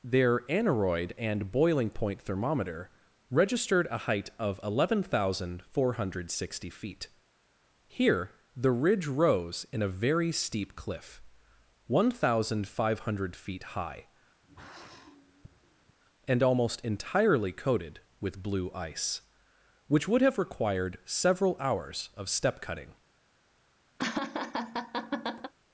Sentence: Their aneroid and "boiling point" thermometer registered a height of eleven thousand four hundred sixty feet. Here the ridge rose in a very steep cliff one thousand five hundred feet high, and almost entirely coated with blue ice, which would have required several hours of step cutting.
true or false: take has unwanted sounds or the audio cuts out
true